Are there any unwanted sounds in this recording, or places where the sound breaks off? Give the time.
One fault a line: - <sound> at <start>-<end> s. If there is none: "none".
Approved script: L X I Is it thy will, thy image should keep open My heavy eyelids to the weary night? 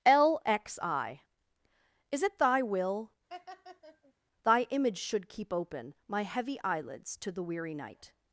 - laugh at 3.3-4.1 s